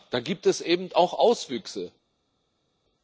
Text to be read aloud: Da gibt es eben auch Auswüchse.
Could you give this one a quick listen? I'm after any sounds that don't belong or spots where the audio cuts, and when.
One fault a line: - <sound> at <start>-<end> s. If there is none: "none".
none